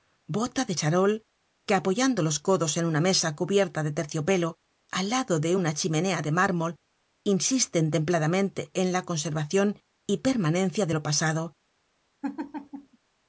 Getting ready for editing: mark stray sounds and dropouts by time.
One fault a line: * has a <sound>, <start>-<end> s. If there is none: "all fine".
* has a laugh, 12.2-13.0 s